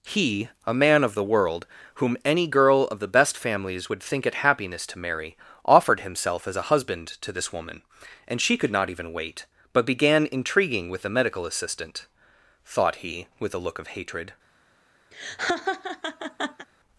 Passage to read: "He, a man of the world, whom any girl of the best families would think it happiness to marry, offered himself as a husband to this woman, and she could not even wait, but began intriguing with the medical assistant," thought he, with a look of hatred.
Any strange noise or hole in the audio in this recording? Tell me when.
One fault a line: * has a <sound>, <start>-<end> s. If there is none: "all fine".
* has a laugh, 15.1-16.7 s